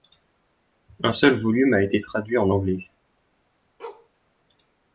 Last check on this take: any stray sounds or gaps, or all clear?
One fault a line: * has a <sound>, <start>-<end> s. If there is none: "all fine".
* has a bark, 3.8-4.1 s